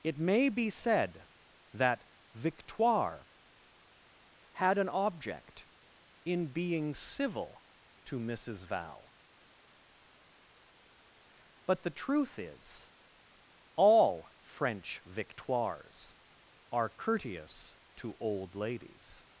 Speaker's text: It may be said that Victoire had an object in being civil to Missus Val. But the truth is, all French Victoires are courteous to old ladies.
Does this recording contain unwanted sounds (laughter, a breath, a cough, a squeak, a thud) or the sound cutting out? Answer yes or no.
no